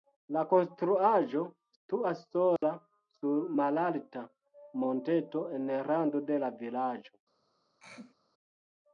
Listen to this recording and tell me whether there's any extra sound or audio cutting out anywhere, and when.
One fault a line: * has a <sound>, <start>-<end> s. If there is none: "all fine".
* has a dropout, 2.6-2.6 s
* has a throat clearing, 7.8-8.1 s